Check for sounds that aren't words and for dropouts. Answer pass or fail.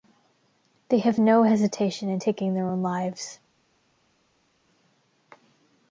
pass